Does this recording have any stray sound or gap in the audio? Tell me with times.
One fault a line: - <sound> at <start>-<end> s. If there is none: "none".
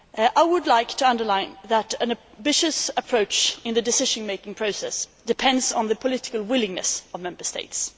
none